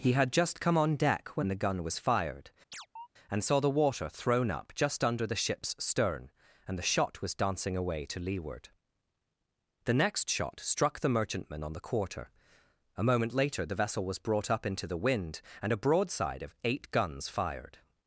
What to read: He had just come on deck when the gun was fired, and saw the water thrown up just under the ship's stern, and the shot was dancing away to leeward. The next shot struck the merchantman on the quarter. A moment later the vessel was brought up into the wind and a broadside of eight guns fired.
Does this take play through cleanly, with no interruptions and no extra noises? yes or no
no